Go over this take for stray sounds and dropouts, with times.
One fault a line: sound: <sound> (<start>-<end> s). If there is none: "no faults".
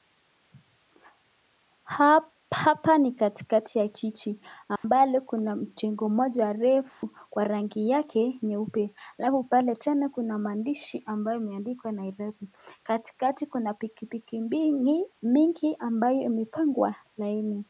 sound: dropout (4.8-4.8 s)
sound: dropout (6.9-7.0 s)